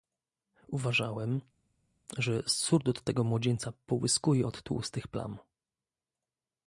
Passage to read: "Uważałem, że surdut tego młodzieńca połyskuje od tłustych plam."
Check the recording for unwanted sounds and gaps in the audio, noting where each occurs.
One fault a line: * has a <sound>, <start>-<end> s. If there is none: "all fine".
all fine